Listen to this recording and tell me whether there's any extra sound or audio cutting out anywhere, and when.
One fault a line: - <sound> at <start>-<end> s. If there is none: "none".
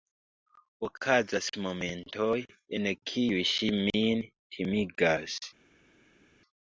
none